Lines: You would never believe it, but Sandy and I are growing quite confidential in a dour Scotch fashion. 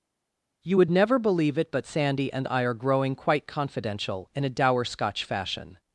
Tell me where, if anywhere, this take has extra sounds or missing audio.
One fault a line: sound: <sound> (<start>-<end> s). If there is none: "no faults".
no faults